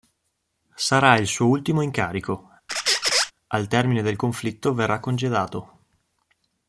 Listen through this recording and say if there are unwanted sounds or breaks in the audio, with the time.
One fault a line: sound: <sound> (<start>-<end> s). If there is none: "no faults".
sound: squeak (2.7-3.3 s)